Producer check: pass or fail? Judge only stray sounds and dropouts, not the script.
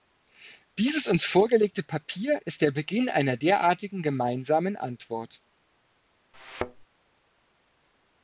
fail